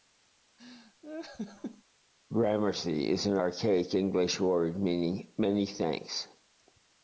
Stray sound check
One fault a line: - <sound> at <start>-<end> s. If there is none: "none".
- laugh at 0.6-1.8 s